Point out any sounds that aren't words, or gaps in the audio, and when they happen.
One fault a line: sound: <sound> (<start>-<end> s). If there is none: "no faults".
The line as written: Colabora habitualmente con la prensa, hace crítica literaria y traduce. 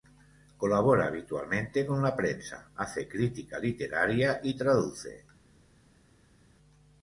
no faults